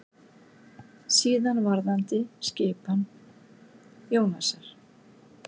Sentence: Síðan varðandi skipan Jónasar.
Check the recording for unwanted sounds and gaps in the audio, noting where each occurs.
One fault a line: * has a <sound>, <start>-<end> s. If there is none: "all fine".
all fine